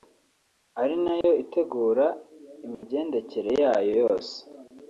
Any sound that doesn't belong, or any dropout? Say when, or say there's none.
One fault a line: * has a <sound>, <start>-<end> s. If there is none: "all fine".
* has a dropout, 1.2-1.2 s
* has a dropout, 2.7-2.8 s